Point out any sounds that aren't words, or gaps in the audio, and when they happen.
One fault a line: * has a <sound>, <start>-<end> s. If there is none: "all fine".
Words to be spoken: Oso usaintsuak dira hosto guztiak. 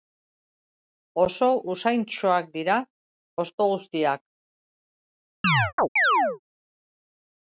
* has a chirp, 5.4-6.4 s